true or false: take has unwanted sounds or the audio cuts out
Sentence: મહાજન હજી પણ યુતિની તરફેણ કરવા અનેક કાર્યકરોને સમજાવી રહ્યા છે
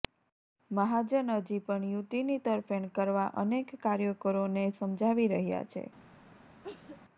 true